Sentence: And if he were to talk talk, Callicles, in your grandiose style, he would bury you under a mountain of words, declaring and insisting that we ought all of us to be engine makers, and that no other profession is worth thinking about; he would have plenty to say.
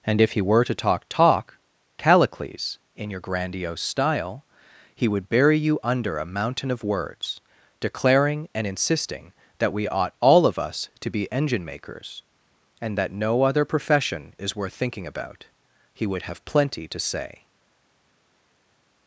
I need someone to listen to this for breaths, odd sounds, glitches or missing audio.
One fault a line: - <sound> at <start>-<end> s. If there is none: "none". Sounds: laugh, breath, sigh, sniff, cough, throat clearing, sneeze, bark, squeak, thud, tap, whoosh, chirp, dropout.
none